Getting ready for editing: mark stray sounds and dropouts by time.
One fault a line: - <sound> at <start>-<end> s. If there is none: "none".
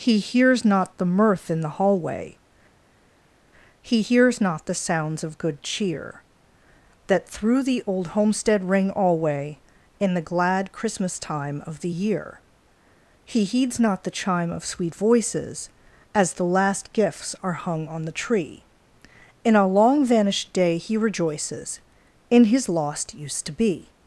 none